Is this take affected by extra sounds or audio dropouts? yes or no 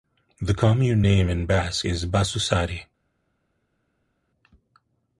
no